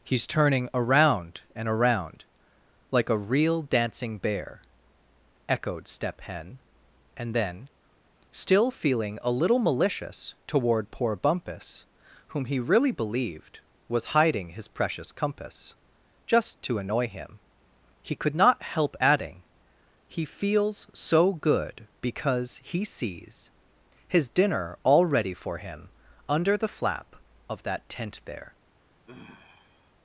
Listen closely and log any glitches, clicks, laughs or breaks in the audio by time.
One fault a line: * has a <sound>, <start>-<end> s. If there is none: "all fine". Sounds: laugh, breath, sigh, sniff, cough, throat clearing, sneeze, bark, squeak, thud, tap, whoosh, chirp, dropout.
* has a sigh, 29.1-29.9 s